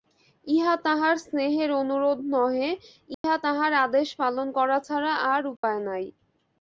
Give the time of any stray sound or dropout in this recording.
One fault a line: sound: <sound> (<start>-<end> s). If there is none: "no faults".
sound: dropout (3.1-3.2 s)
sound: dropout (5.6-5.6 s)